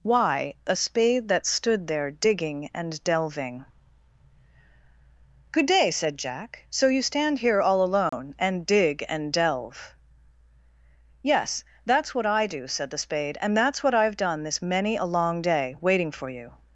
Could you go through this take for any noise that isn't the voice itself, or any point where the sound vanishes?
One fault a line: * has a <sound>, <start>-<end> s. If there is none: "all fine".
* has a dropout, 8.1-8.1 s